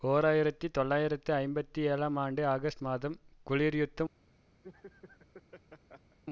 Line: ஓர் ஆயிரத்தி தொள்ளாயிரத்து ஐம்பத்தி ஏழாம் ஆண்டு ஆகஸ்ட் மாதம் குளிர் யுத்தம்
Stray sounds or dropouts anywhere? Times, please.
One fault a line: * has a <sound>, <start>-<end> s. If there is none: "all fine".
* has a laugh, 4.6-6.2 s